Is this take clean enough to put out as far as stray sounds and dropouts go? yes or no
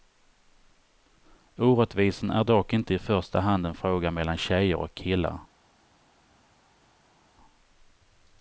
yes